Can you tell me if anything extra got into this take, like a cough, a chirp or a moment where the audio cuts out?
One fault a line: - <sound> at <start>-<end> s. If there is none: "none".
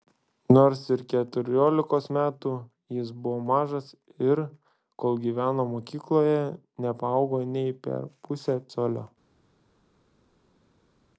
none